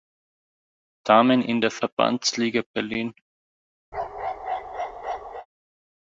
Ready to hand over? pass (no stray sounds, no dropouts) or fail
fail